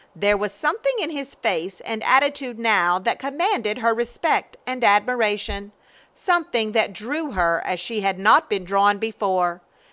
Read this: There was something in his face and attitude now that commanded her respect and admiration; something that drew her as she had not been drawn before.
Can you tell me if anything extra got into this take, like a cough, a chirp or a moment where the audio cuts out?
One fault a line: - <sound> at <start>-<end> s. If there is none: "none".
none